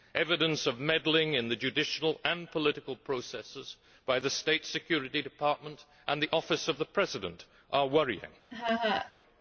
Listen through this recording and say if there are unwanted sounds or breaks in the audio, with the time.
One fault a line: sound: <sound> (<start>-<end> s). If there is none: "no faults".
sound: laugh (8.5-9.1 s)